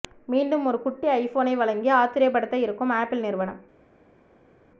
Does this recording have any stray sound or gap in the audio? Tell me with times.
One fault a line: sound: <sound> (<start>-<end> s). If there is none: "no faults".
no faults